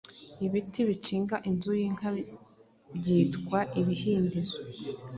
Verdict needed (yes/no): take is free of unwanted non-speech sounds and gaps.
yes